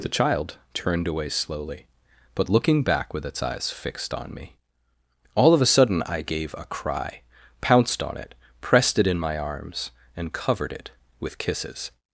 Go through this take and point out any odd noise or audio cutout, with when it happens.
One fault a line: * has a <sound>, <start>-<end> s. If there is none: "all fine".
all fine